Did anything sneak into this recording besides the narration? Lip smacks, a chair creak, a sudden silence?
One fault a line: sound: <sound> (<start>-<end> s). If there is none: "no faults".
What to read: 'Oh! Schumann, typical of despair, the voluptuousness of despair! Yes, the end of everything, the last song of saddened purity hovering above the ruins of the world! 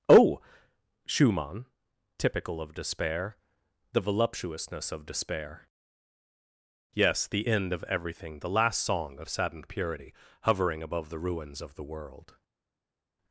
no faults